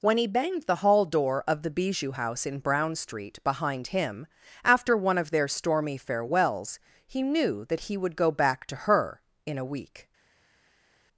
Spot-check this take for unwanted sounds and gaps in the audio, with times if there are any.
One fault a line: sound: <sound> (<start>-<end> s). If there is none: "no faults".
no faults